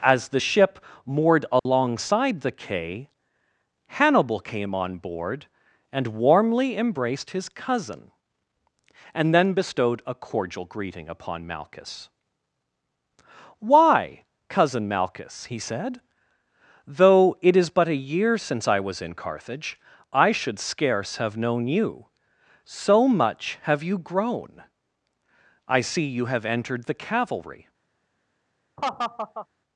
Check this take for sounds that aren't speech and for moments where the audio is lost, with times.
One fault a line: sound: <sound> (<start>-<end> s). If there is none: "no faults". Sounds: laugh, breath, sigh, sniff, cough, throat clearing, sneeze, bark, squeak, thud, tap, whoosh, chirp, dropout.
sound: dropout (1.6-1.7 s)
sound: laugh (28.8-29.5 s)